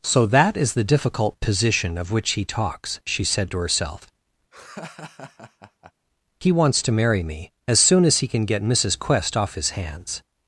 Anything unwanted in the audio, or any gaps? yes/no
yes